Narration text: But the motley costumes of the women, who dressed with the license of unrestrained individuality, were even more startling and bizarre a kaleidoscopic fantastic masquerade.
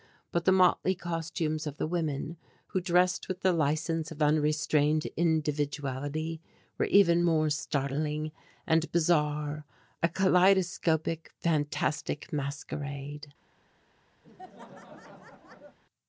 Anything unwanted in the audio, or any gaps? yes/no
yes